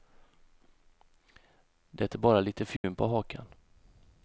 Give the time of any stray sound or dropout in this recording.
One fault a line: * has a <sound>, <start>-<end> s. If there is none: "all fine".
* has a dropout, 2.8-2.8 s